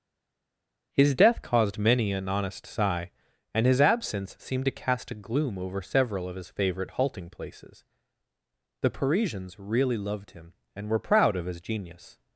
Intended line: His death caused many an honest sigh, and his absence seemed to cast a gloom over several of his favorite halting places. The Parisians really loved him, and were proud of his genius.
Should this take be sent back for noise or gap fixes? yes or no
no